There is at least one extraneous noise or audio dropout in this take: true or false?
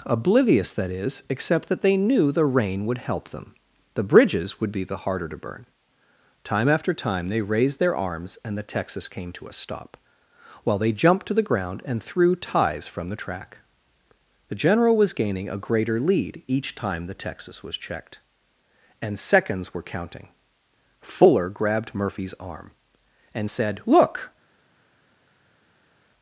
false